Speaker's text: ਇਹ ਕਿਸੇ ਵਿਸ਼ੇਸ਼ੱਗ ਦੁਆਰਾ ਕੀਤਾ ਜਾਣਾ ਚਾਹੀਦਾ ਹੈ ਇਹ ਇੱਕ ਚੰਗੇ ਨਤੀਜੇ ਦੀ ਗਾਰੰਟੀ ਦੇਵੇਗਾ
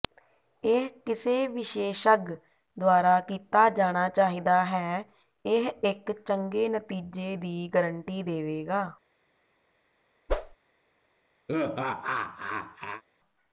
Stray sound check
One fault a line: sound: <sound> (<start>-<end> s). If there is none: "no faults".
sound: whoosh (10.3-10.6 s)
sound: laugh (11.5-13.0 s)